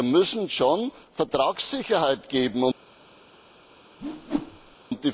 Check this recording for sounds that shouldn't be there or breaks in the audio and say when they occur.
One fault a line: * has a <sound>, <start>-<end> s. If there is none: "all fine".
* has a whoosh, 4.0-4.8 s